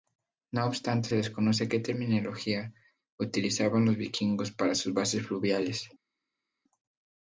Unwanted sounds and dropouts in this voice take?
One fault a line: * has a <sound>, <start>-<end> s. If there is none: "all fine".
all fine